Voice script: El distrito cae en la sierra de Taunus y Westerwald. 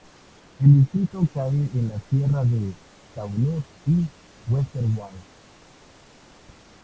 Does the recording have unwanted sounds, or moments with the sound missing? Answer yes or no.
no